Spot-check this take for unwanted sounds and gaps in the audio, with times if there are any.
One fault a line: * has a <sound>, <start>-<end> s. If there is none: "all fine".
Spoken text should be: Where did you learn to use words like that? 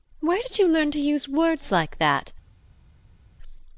all fine